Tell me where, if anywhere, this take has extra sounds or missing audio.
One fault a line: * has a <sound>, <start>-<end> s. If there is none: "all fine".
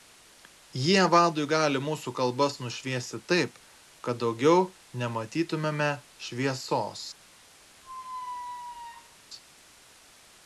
* has a squeak, 7.8-9.2 s